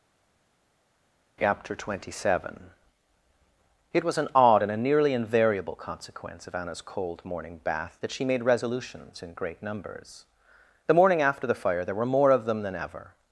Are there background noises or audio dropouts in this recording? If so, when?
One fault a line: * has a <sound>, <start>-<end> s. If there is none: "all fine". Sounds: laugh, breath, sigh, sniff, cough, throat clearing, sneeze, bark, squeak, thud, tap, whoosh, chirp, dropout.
all fine